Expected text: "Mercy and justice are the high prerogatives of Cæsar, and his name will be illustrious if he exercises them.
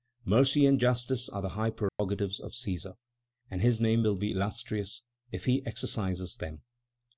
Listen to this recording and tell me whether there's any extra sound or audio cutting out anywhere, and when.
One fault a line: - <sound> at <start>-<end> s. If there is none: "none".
- dropout at 1.9-2.0 s